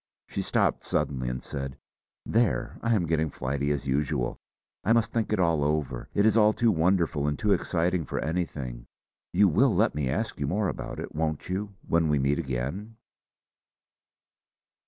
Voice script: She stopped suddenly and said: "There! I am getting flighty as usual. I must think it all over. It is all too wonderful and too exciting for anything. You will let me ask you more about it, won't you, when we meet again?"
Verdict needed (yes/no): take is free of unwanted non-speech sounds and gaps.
yes